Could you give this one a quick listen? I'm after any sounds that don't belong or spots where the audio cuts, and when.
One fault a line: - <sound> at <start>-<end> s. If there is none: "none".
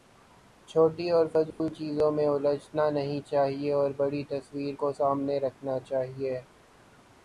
- dropout at 1.5-1.6 s